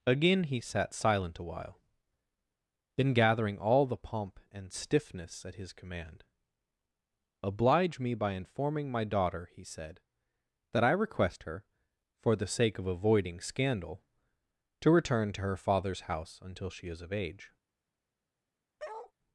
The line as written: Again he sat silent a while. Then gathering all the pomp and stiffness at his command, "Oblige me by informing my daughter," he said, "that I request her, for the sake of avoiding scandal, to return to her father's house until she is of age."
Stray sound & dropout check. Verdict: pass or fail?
fail